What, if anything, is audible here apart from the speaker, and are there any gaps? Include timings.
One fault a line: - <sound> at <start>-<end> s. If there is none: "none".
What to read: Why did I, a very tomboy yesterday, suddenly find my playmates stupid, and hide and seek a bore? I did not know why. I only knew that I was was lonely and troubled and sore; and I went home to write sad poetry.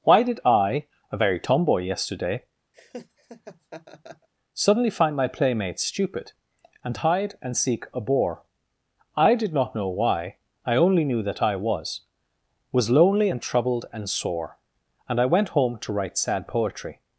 - laugh at 2.7-4.3 s